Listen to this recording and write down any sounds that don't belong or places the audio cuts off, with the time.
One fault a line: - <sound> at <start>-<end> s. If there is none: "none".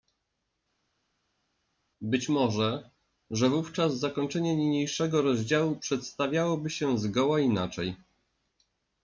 none